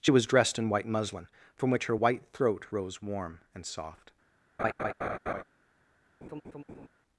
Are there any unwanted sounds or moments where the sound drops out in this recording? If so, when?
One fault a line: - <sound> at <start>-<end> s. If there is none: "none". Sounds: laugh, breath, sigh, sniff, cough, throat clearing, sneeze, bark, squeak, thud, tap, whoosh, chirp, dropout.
- laugh at 4.6-5.4 s
- laugh at 6.2-6.9 s